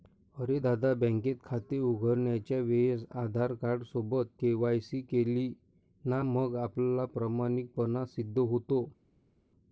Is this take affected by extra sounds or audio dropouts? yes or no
no